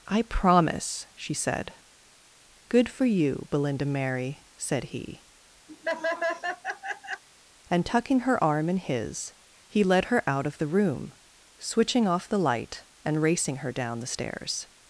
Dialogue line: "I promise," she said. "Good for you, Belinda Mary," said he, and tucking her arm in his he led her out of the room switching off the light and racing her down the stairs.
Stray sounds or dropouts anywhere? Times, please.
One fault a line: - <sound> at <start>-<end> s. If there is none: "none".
- laugh at 5.7-7.2 s